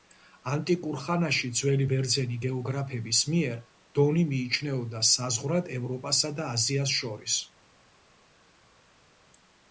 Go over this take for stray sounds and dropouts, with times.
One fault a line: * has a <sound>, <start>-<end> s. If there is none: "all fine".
all fine